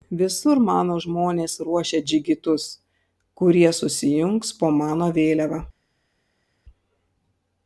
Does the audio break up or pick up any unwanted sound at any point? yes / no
no